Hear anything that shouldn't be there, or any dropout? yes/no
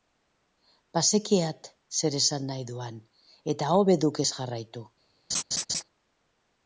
yes